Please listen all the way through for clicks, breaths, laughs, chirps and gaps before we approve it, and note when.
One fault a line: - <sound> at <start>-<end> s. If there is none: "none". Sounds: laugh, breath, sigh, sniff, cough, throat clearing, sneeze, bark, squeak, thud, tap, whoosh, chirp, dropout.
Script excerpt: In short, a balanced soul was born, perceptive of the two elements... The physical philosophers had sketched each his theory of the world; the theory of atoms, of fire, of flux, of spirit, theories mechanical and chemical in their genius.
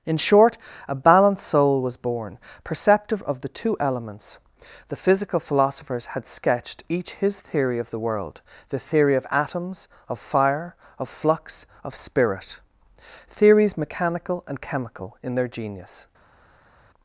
none